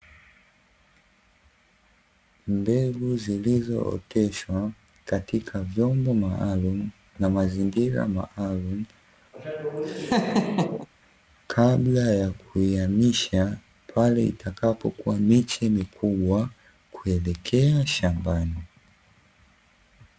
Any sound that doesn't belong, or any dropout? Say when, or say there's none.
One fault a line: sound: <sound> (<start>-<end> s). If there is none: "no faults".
sound: laugh (9.3-10.9 s)